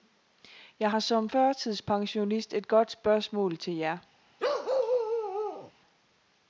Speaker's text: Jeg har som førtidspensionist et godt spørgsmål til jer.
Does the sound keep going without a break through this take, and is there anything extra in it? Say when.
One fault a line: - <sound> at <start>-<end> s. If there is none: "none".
- bark at 4.4-5.7 s